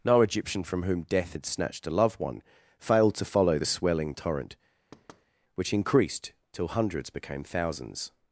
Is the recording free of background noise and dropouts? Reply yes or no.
no